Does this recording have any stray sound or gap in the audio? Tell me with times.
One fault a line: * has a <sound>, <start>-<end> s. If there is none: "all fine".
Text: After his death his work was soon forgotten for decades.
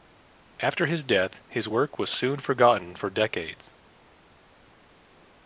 all fine